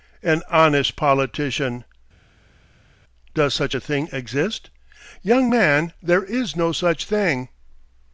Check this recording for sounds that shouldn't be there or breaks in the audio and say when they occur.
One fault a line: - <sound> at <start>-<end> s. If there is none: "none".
none